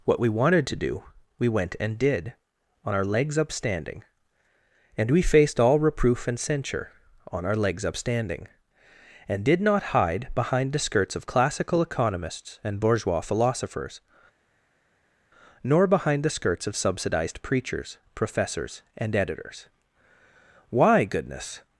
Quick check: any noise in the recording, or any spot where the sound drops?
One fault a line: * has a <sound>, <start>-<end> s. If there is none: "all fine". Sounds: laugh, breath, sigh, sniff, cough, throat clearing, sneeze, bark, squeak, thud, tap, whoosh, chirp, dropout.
all fine